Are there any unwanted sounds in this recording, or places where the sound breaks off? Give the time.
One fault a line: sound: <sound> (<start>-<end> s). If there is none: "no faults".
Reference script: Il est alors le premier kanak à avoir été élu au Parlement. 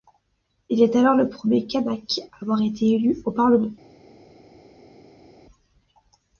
no faults